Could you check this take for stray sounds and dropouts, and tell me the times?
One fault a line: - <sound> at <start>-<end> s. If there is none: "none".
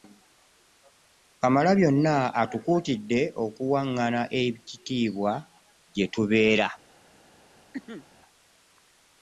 - cough at 7.7-8.1 s